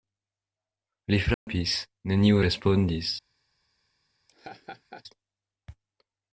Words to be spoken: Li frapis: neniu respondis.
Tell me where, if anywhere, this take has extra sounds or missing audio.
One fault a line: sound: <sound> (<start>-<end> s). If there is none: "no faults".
sound: dropout (1.3-1.5 s)
sound: laugh (4.3-5.0 s)